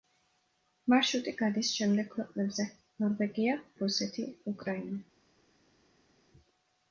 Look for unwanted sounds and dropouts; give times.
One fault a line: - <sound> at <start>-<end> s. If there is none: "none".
none